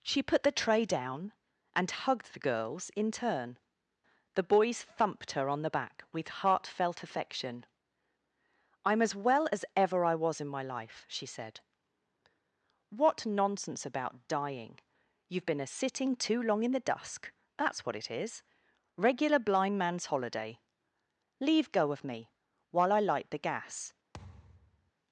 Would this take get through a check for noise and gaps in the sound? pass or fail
fail